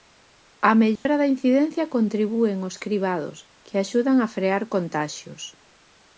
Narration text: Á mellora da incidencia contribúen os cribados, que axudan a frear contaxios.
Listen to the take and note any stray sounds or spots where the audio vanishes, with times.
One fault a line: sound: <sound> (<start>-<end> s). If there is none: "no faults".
sound: dropout (1.0-1.1 s)